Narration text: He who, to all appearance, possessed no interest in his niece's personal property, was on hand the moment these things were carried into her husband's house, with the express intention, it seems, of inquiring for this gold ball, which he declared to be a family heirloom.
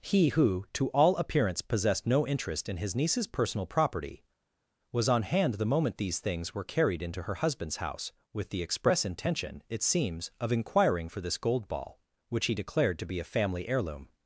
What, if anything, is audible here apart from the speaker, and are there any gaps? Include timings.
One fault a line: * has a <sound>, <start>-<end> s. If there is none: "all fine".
all fine